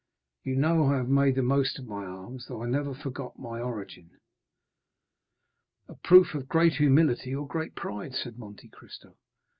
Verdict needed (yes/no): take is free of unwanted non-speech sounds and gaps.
yes